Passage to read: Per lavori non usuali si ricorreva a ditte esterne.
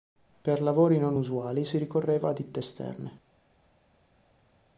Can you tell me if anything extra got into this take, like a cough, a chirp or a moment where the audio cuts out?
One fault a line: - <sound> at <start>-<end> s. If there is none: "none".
none